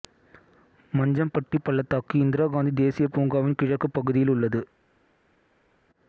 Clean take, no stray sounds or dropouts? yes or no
yes